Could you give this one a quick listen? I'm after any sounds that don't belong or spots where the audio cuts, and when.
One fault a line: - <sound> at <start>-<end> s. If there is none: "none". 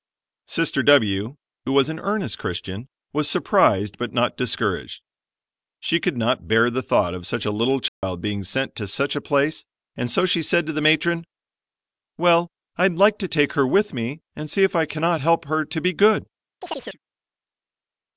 - dropout at 7.9-8.0 s
- chirp at 16.6-17.0 s